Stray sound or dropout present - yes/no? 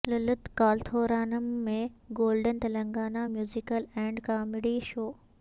no